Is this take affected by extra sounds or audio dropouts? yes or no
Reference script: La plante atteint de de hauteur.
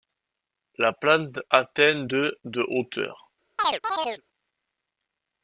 yes